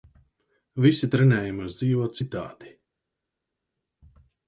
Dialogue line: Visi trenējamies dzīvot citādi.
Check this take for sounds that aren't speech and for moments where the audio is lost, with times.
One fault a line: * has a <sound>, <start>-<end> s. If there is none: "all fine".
all fine